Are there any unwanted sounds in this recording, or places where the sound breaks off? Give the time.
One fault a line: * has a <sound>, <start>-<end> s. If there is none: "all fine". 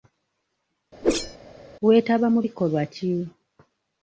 * has a whoosh, 1.0-1.4 s